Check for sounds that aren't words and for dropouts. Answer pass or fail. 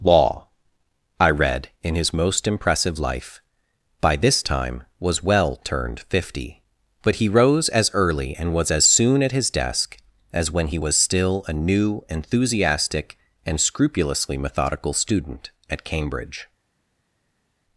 pass